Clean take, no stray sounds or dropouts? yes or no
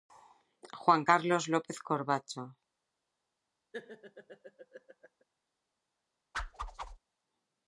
no